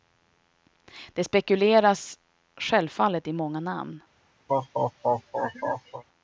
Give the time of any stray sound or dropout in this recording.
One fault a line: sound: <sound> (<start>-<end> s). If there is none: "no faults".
sound: laugh (4.5-6.0 s)